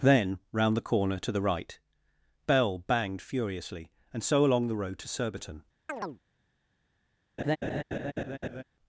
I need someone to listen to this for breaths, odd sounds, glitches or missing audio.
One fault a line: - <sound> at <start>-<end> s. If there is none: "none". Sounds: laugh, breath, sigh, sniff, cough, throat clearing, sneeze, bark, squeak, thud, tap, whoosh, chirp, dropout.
- chirp at 5.9-6.2 s
- laugh at 7.4-8.6 s